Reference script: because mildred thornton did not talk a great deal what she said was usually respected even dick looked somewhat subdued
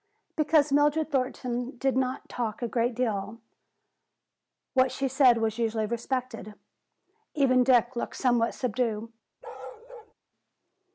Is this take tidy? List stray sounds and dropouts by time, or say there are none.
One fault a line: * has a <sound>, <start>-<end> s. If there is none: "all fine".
* has a bark, 9.4-10.1 s